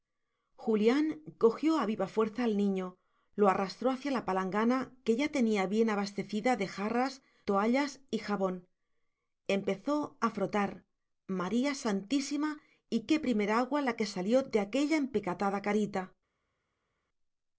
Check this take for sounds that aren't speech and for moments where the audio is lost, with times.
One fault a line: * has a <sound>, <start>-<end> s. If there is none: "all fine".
all fine